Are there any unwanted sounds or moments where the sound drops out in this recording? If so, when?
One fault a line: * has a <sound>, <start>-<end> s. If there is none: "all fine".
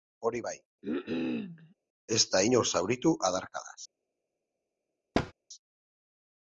* has a cough, 0.8-1.7 s
* has a thud, 5.1-5.3 s